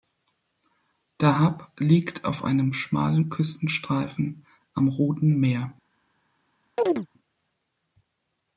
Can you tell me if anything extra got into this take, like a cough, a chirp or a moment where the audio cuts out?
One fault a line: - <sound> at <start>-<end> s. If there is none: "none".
- chirp at 6.8-7.1 s